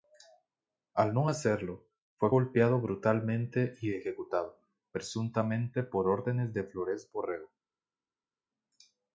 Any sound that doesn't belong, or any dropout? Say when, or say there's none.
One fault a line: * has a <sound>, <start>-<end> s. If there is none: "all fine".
all fine